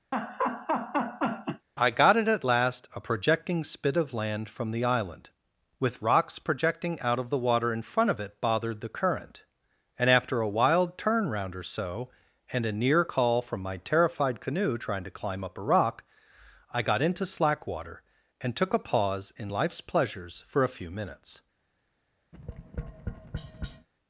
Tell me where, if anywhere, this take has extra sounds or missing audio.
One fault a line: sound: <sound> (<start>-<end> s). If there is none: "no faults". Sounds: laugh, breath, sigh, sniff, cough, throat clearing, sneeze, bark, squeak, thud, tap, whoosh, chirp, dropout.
sound: laugh (0.1-1.7 s)
sound: tap (22.3-23.9 s)